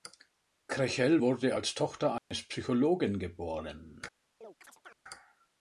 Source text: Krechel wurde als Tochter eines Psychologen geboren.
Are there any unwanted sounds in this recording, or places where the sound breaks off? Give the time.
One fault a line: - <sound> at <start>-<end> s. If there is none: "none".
- dropout at 2.2-2.3 s
- chirp at 4.4-5.0 s